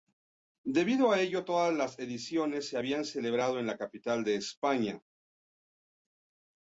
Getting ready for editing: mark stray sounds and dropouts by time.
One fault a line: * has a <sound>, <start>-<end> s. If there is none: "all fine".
all fine